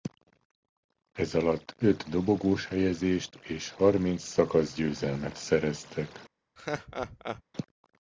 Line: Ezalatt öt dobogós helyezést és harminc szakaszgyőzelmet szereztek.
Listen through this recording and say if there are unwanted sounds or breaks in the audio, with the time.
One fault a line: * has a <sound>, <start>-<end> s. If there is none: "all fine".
* has a laugh, 6.6-7.4 s